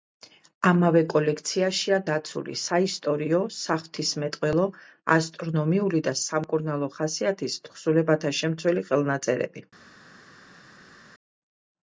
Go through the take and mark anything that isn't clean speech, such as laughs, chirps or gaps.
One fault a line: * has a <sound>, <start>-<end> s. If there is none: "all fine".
all fine